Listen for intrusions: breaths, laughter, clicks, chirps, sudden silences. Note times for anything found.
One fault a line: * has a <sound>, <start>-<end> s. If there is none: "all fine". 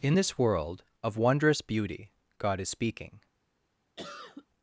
* has a cough, 4.0-4.5 s